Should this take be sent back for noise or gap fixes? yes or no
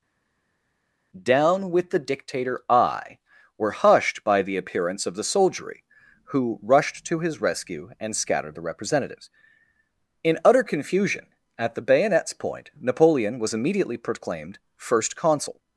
no